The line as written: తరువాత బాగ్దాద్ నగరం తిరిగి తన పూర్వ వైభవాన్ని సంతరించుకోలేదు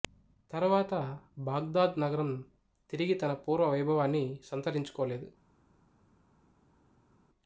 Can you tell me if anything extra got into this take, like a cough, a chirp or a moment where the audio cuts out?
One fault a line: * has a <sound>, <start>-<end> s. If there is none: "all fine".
all fine